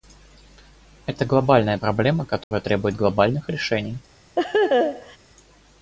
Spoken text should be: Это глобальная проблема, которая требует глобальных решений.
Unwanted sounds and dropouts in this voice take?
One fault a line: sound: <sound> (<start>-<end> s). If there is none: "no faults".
sound: dropout (2.4-2.5 s)
sound: laugh (4.4-5.2 s)